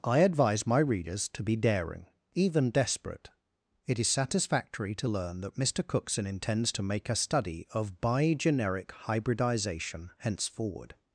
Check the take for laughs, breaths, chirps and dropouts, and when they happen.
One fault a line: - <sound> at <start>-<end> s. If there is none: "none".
none